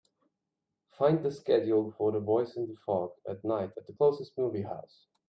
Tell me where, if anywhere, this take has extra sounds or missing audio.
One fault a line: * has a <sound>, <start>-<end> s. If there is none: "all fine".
all fine